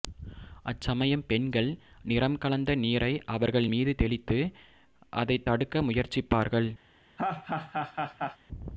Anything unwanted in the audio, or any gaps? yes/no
yes